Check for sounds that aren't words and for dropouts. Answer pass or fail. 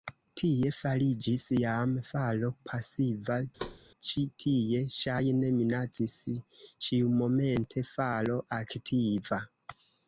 fail